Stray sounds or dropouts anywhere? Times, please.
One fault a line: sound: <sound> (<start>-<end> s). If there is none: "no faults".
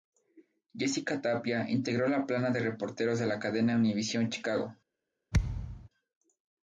sound: thud (5.3-5.9 s)